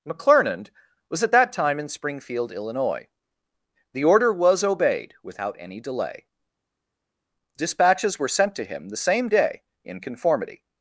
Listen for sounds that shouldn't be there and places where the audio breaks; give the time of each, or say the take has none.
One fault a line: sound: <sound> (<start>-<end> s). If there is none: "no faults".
no faults